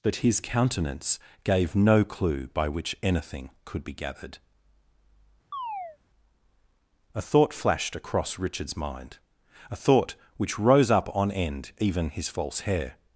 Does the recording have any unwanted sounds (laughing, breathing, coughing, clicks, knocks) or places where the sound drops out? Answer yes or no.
yes